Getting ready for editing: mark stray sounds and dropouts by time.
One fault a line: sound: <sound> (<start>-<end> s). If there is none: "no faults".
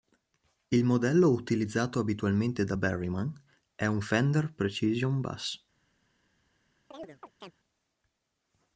sound: chirp (6.9-7.5 s)